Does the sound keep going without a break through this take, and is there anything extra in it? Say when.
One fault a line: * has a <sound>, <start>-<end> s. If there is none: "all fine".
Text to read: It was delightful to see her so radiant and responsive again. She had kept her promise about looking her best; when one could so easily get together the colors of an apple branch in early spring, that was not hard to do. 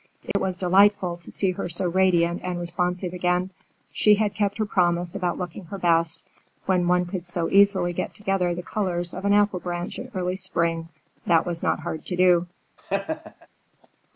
* has a dropout, 0.3-0.4 s
* has a laugh, 12.8-13.5 s